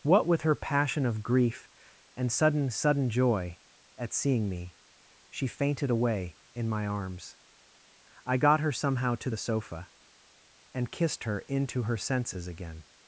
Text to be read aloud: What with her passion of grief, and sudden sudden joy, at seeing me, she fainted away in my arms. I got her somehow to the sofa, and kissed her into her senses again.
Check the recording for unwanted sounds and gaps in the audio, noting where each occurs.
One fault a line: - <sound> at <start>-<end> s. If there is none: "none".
none